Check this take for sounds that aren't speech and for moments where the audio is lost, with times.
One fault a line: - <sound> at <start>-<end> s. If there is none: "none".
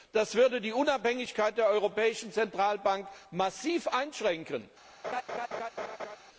- laugh at 5.0-6.2 s